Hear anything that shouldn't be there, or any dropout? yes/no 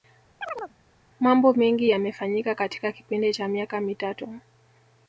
yes